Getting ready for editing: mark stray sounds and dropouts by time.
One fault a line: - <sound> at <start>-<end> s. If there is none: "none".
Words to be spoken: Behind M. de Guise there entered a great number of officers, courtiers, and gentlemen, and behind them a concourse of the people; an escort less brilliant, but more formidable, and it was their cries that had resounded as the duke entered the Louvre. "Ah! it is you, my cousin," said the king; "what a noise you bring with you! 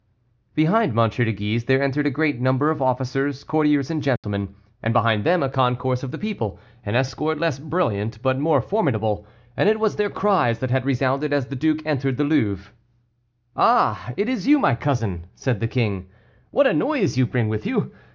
- dropout at 4.2-4.2 s